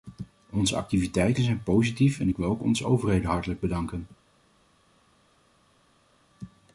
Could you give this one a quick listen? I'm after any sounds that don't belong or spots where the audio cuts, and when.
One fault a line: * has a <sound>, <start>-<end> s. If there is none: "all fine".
all fine